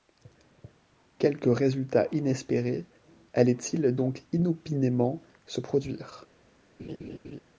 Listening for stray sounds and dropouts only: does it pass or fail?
fail